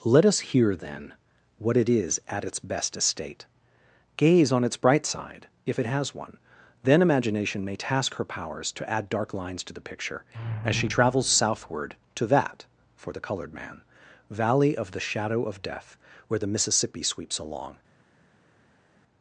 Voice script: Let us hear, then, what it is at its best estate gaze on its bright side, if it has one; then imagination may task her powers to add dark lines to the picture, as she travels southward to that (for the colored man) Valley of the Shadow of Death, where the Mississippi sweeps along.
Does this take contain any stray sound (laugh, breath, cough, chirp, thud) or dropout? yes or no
no